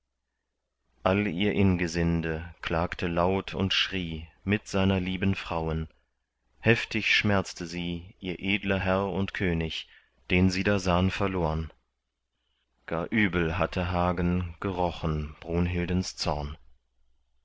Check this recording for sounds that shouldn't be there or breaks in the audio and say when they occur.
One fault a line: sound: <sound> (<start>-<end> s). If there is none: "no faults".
no faults